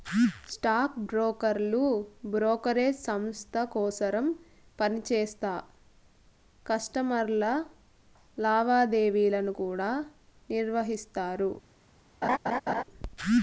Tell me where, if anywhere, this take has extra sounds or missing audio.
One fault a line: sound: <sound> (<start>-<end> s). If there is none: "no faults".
sound: laugh (12.2-12.8 s)